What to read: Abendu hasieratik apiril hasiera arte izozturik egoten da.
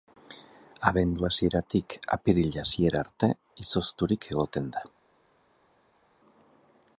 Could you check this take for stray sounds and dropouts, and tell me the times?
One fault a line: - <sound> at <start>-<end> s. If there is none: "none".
none